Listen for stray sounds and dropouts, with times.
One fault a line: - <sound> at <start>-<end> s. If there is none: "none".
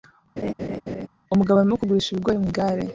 - laugh at 0.4-1.1 s